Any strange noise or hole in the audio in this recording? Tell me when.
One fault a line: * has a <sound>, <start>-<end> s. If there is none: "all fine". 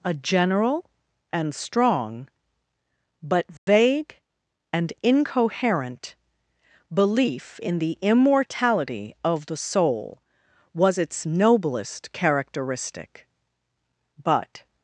* has a dropout, 3.6-3.7 s